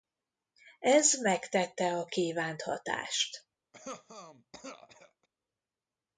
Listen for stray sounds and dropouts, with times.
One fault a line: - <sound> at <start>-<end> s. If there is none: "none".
- cough at 3.7-5.3 s